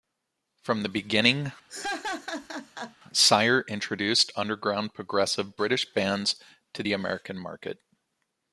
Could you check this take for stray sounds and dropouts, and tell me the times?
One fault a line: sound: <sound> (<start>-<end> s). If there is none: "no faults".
sound: laugh (1.7-3.0 s)